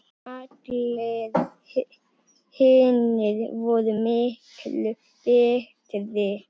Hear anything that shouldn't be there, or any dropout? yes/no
no